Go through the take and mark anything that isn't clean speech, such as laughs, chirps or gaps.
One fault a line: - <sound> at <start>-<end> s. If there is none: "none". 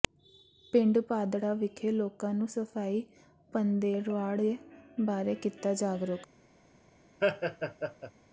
- laugh at 7.2-8.1 s